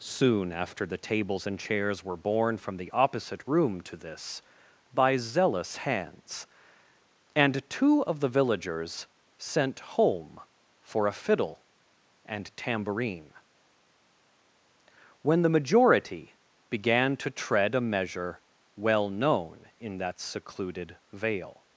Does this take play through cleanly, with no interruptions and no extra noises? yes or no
yes